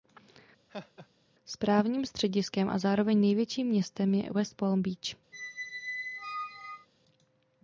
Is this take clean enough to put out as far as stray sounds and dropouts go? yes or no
no